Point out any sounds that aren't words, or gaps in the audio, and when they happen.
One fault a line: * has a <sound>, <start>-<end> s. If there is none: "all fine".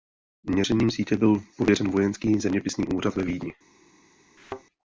* has a thud, 4.4-4.6 s